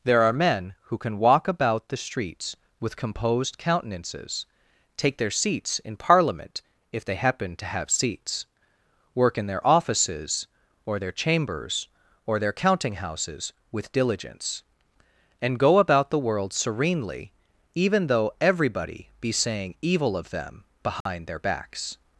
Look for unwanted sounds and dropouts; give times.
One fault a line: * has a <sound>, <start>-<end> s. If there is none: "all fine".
* has a dropout, 21.0-21.1 s